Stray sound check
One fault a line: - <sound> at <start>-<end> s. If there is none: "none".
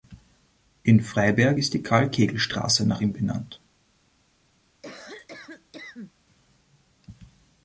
- cough at 4.8-6.1 s